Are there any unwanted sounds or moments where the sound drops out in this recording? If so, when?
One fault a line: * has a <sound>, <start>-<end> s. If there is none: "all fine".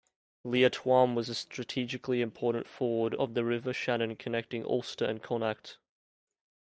all fine